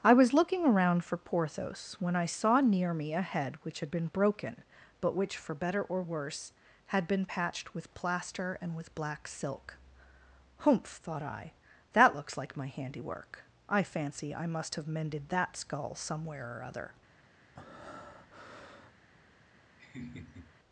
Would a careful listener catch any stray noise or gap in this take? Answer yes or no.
yes